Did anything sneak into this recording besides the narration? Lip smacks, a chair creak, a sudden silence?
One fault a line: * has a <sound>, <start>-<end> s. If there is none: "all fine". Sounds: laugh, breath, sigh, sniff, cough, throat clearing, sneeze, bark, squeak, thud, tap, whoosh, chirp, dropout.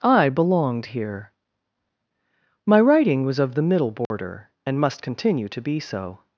* has a dropout, 4.1-4.1 s